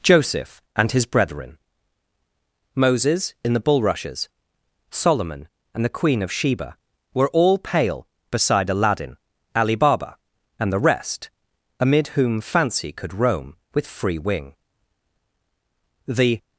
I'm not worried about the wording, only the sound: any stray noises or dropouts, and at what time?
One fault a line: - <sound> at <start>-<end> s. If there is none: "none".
none